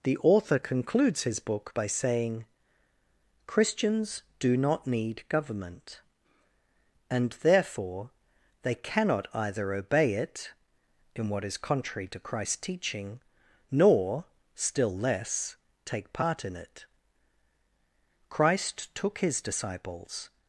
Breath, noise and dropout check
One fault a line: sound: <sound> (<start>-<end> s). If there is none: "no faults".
no faults